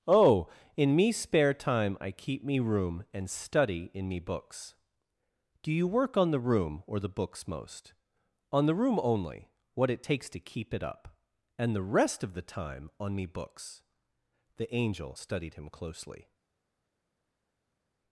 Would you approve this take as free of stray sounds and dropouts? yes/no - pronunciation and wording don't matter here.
yes